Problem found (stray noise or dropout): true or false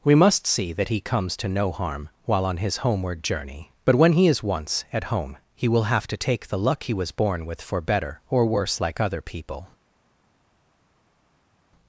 false